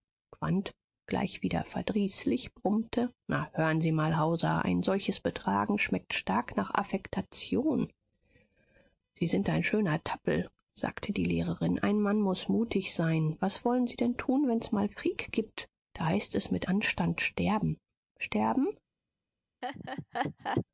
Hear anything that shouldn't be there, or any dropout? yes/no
yes